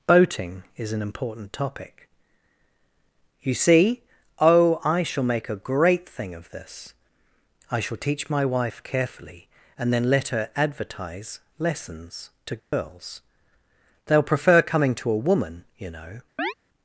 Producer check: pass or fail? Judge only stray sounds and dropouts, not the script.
fail